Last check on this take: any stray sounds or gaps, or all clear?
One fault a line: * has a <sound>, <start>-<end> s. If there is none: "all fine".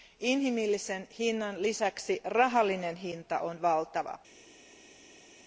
all fine